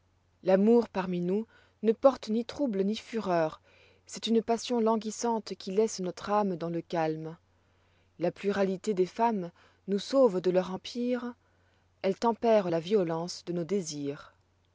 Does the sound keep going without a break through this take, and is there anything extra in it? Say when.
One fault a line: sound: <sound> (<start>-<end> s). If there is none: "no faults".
no faults